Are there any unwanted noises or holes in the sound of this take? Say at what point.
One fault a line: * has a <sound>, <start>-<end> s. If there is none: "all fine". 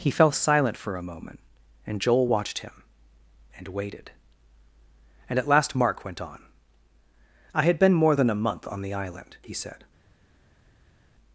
all fine